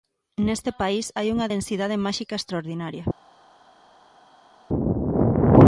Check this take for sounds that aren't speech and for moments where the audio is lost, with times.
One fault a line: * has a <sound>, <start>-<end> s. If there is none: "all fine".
all fine